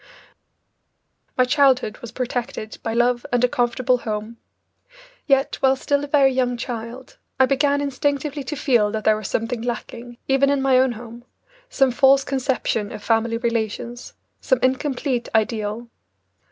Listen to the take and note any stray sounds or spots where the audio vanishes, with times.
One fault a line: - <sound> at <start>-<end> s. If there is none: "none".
none